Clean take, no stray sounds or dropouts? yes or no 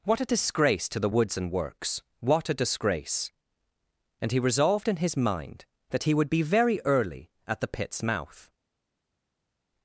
yes